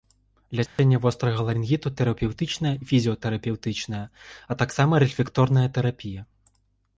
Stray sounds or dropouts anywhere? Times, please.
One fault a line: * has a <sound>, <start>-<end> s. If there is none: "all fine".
* has a dropout, 0.7-0.8 s